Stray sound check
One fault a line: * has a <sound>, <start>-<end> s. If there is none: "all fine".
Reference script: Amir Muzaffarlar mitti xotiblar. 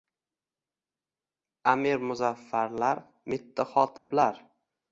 * has a dropout, 4.0-4.1 s